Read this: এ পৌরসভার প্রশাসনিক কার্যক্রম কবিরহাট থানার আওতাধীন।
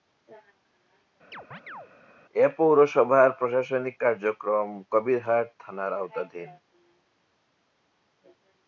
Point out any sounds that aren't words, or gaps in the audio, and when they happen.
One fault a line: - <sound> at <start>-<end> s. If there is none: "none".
- chirp at 1.3-1.9 s